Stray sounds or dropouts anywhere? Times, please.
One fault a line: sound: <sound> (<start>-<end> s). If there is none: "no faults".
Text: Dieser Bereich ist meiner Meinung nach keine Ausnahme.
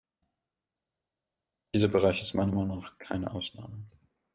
no faults